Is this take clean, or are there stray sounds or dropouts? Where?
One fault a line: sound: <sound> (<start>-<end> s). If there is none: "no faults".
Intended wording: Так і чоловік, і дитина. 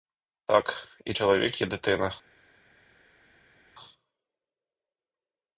no faults